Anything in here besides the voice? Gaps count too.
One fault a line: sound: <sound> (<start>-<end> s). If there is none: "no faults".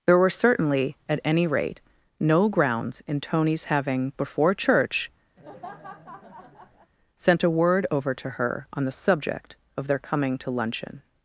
sound: laugh (5.4-6.9 s)